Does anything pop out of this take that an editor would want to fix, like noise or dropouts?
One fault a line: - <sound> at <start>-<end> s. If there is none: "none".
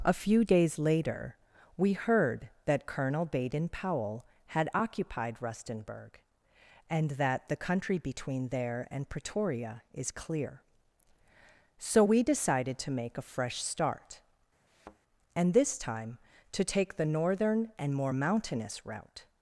- thud at 14.7-15.0 s